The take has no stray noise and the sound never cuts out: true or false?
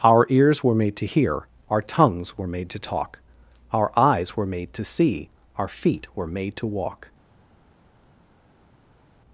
true